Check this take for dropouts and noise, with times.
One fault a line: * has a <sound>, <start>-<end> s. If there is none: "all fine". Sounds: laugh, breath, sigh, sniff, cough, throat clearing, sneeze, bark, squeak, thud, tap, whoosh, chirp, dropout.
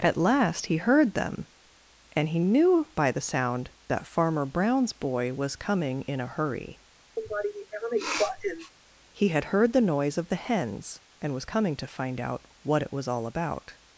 * has a sniff, 7.2-8.7 s